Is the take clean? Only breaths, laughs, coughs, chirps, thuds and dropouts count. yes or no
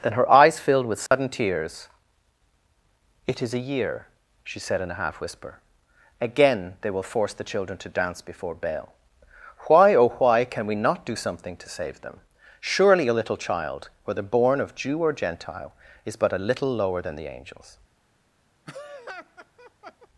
no